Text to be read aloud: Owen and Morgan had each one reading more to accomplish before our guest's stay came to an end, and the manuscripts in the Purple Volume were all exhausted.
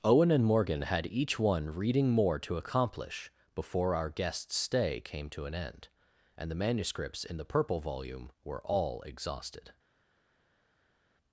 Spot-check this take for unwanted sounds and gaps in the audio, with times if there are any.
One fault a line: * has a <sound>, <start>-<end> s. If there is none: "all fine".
all fine